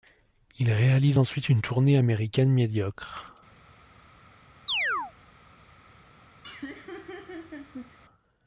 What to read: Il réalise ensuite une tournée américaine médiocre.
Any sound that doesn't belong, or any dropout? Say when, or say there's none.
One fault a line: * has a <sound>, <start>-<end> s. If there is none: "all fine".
* has a chirp, 4.7-5.1 s
* has a laugh, 6.4-8.0 s